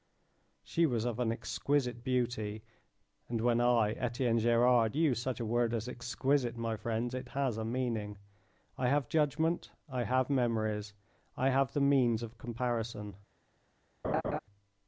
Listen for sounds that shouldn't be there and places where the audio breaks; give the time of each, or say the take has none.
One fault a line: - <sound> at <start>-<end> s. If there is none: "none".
- laugh at 14.0-14.4 s